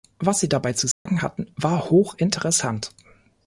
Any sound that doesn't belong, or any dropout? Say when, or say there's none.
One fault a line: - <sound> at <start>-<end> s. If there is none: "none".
- dropout at 0.9-1.1 s